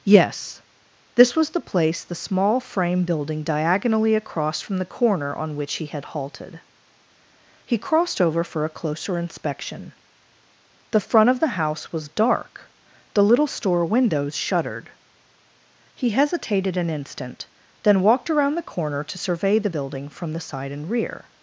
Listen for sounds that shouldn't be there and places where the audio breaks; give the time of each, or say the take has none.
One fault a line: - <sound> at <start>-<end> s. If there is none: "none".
none